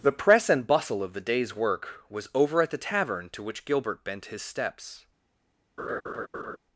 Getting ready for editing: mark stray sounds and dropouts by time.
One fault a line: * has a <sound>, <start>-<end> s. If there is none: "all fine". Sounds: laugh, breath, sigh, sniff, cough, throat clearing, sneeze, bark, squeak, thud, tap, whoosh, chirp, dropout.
* has a laugh, 5.8-6.6 s